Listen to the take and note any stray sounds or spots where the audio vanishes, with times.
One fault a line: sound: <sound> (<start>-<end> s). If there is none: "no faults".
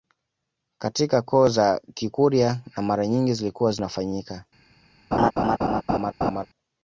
sound: laugh (5.1-6.5 s)